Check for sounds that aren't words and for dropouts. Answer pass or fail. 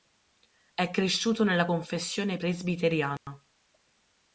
fail